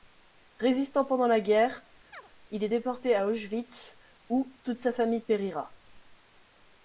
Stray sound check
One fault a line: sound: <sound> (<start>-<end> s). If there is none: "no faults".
sound: chirp (2.1-2.3 s)